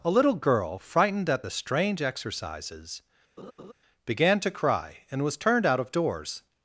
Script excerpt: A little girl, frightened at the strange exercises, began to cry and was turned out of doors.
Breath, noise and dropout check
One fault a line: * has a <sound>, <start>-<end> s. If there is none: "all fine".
* has a laugh, 3.4-3.7 s